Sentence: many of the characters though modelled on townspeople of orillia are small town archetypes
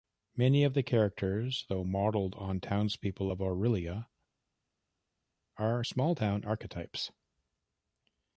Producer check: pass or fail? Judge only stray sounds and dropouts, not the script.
pass